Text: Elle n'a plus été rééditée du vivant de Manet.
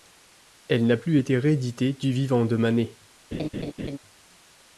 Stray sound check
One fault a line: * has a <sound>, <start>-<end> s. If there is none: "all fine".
* has a laugh, 3.3-4.0 s